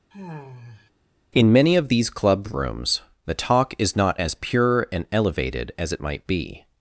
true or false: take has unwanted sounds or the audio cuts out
true